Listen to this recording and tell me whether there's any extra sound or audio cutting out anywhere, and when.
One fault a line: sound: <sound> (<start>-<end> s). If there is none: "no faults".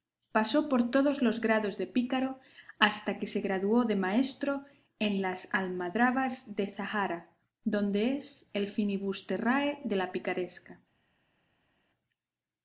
no faults